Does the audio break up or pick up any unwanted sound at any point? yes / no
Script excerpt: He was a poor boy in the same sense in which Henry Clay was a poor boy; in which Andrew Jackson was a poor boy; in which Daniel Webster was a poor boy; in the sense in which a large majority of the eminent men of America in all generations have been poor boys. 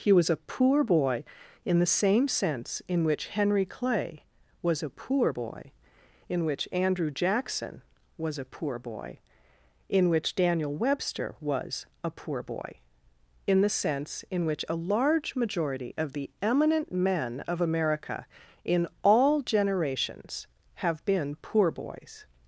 no